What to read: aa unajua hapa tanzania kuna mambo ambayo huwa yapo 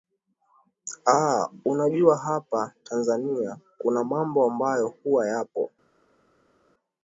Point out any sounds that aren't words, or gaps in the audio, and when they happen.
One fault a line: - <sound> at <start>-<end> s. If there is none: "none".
none